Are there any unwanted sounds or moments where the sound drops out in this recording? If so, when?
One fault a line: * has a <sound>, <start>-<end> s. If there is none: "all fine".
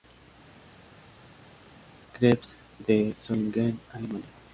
all fine